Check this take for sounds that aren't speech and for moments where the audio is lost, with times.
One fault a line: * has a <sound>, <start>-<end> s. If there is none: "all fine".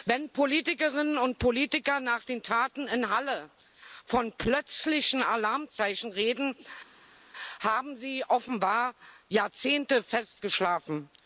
all fine